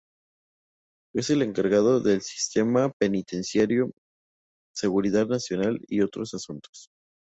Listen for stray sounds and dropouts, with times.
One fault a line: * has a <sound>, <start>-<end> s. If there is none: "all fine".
all fine